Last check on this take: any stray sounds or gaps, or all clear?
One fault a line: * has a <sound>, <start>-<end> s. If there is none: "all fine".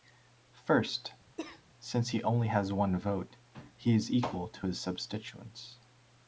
* has a cough, 1.4-1.6 s